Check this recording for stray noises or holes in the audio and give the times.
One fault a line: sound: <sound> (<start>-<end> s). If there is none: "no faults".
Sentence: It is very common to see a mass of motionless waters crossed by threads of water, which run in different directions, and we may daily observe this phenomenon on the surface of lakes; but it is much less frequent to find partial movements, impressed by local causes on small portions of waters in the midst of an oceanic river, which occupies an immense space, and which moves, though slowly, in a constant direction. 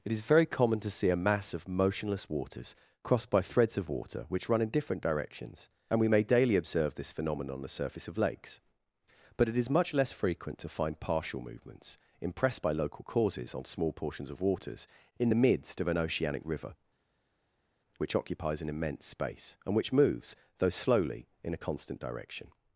no faults